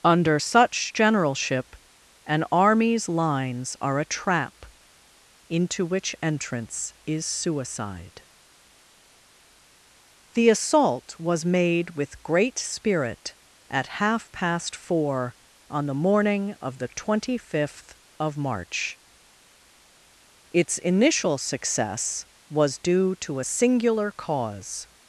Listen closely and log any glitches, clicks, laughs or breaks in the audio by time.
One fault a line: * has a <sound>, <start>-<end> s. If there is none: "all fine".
all fine